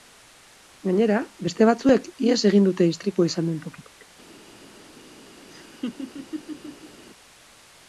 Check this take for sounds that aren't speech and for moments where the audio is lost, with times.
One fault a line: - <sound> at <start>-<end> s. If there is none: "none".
- laugh at 5.5-7.0 s